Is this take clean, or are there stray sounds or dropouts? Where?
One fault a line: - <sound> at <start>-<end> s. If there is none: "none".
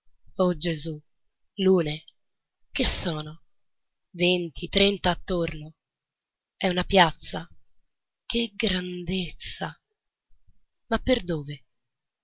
none